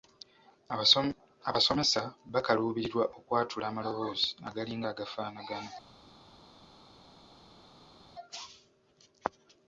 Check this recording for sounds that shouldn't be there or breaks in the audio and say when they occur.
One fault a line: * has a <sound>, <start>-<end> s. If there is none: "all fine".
all fine